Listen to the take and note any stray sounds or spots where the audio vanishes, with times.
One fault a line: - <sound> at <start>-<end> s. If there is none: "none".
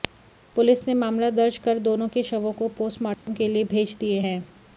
- dropout at 3.1-3.3 s